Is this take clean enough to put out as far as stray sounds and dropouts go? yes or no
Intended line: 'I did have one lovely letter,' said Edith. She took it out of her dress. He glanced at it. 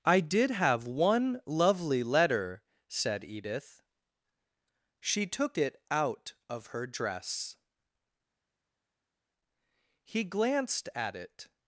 yes